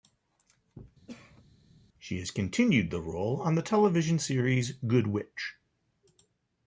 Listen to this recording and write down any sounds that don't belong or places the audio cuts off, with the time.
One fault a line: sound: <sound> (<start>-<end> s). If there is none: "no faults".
sound: cough (1.1-1.4 s)